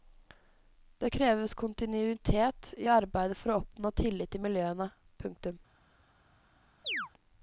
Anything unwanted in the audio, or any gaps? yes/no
yes